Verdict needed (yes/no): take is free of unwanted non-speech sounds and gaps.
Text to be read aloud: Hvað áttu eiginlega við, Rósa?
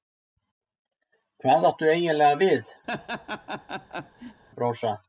no